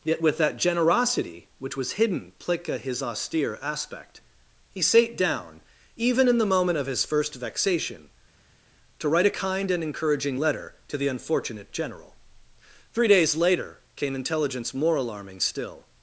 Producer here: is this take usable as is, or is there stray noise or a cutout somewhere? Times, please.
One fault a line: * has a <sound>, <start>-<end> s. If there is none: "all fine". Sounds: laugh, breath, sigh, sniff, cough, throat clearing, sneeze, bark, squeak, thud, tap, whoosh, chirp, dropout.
all fine